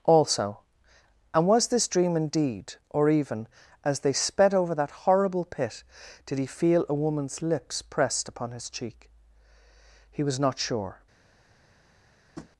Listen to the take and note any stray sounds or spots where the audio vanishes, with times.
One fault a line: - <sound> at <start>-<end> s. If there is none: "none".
- tap at 12.4-12.5 s